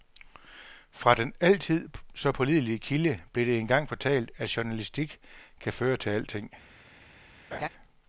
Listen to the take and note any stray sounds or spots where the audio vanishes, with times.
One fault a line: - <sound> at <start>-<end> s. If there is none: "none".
- laugh at 7.5-7.7 s